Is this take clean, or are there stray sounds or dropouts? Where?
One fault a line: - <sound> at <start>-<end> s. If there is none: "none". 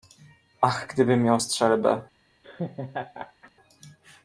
- laugh at 2.4-3.5 s